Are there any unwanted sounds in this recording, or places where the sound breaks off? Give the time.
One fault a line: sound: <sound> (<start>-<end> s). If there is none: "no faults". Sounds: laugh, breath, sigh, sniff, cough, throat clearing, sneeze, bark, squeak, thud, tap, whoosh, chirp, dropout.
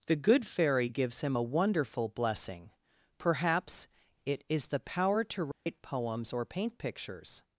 sound: dropout (5.5-5.7 s)